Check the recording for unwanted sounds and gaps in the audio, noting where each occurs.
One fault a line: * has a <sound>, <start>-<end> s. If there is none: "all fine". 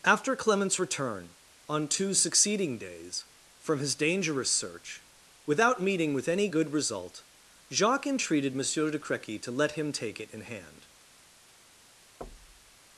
* has a thud, 12.2-12.8 s